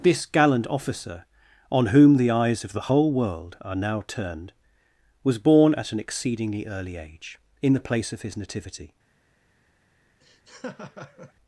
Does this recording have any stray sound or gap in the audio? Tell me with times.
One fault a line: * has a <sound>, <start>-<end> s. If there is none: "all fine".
* has a laugh, 10.2-11.3 s